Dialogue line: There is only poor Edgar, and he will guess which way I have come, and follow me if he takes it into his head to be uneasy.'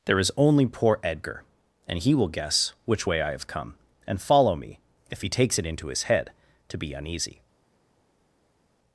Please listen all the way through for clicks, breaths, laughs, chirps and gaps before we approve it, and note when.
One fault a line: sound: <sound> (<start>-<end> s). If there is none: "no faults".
no faults